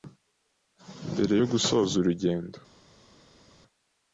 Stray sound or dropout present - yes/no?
no